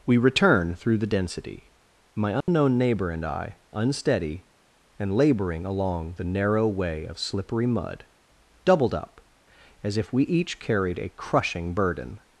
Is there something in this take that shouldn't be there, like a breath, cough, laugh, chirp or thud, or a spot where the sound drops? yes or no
yes